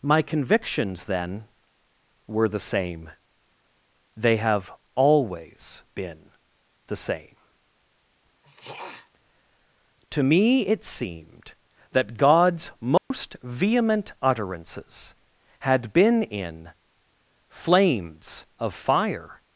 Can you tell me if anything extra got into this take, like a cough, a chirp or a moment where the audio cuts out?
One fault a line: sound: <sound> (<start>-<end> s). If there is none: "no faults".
sound: throat clearing (8.4-9.1 s)
sound: dropout (13.0-13.1 s)